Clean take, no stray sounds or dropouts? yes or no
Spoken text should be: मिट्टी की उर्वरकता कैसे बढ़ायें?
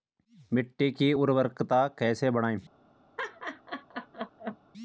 no